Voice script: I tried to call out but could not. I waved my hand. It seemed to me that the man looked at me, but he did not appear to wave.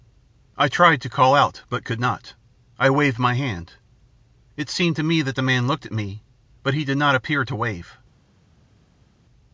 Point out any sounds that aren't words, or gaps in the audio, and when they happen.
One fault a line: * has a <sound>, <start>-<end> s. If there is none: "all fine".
all fine